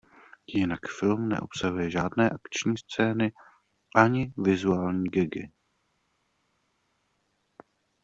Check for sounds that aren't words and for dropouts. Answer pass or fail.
pass